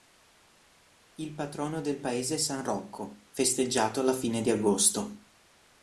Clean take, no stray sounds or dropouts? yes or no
yes